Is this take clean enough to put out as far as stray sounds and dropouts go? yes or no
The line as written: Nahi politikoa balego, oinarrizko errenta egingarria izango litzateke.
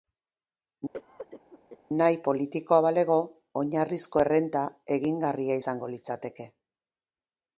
no